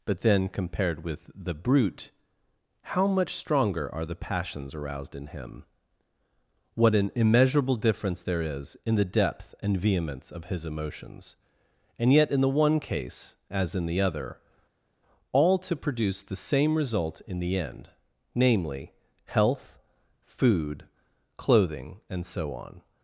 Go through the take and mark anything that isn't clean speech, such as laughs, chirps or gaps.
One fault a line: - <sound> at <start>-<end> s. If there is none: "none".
none